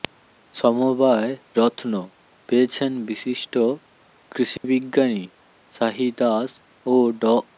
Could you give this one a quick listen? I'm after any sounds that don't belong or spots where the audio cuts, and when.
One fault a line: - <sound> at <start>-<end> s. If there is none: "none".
- dropout at 4.6-4.6 s